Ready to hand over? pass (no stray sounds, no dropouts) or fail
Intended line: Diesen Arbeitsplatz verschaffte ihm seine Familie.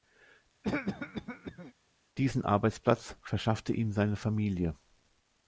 fail